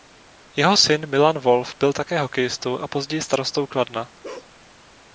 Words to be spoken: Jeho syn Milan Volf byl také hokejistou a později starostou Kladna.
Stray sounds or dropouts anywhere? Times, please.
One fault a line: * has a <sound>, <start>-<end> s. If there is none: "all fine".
* has a bark, 4.2-4.5 s